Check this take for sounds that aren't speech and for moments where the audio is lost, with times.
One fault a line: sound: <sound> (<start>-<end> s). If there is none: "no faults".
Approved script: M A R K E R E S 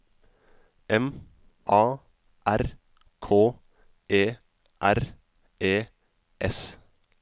no faults